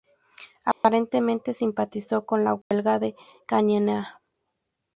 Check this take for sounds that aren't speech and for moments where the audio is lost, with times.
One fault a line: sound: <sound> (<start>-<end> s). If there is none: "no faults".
sound: dropout (0.7-0.8 s)
sound: dropout (2.6-2.7 s)